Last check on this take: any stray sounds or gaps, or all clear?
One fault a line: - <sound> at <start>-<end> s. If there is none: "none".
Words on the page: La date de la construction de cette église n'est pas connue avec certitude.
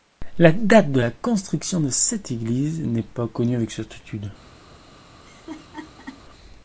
- laugh at 5.2-6.2 s